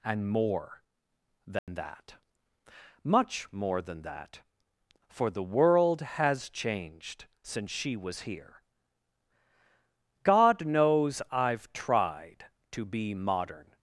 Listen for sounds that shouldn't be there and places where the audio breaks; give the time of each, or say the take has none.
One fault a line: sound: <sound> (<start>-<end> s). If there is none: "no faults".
sound: dropout (1.6-1.7 s)